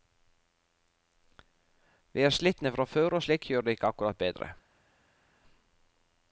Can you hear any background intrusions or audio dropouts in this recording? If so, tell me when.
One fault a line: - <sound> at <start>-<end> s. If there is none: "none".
none